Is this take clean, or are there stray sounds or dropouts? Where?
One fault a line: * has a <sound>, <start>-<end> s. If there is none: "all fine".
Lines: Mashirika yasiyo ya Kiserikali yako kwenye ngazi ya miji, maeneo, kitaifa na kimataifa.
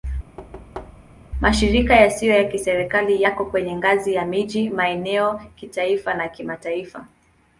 * has a thud, 0.4-1.2 s